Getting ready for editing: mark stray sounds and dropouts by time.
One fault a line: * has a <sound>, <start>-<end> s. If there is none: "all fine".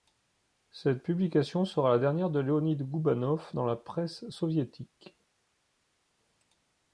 all fine